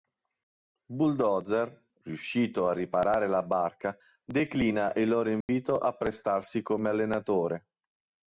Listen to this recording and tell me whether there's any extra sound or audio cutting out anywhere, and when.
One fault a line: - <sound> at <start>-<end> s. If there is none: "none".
- dropout at 5.4-5.5 s